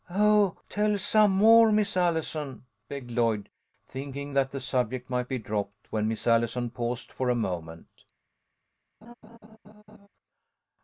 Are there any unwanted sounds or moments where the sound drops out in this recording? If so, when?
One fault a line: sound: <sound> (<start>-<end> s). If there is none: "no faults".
sound: laugh (9.0-10.1 s)